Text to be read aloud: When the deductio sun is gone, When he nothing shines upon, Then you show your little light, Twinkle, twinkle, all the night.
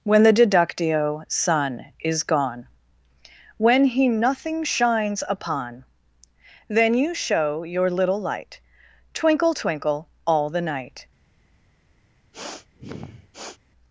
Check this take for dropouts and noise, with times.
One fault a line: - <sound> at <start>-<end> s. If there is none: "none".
- sniff at 12.3-13.6 s